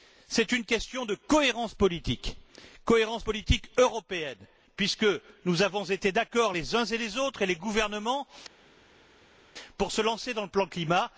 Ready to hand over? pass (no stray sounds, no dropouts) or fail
pass